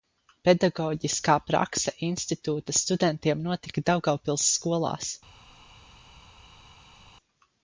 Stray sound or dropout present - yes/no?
no